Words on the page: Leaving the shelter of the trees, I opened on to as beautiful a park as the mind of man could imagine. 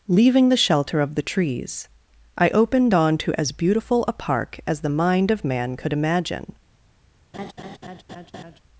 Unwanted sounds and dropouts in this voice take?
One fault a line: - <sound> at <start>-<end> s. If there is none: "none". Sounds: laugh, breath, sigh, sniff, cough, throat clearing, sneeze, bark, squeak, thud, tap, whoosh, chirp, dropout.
- laugh at 7.3-8.6 s